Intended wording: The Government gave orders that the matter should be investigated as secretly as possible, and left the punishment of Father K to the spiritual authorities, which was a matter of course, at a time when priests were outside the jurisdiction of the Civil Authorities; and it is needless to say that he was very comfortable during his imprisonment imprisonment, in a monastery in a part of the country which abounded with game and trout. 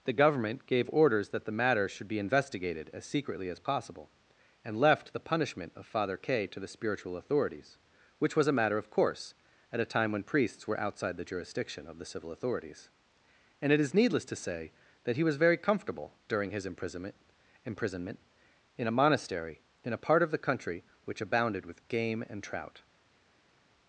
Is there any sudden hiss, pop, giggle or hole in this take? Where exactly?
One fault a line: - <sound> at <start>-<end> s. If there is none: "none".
none